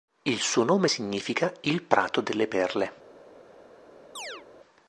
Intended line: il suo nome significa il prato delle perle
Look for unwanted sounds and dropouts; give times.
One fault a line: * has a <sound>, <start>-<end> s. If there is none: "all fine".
* has a chirp, 4.2-4.4 s